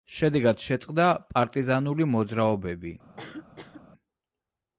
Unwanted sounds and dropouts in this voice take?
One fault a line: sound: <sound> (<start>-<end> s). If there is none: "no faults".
sound: cough (3.2-3.8 s)